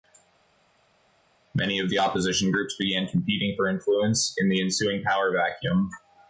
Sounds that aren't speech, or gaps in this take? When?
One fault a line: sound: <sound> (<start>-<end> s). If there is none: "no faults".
no faults